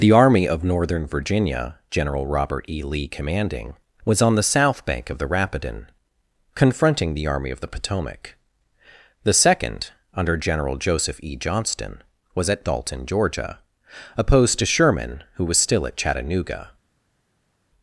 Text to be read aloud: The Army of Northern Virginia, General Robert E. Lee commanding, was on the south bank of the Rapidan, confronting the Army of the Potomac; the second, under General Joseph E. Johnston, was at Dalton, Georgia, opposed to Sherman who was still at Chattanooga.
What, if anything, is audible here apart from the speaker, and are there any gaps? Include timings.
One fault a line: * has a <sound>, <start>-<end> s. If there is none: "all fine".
all fine